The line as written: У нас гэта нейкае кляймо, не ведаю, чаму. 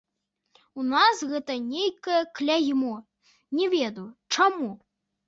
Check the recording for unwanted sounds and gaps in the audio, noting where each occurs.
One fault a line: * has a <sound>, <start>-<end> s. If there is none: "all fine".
all fine